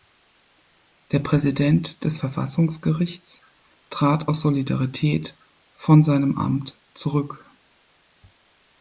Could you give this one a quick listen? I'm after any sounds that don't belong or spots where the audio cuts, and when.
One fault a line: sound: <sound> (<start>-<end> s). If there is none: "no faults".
no faults